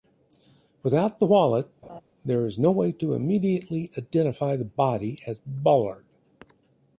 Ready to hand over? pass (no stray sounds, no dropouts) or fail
fail